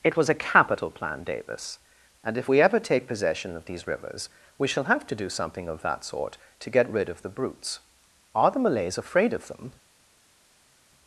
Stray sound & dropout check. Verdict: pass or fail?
pass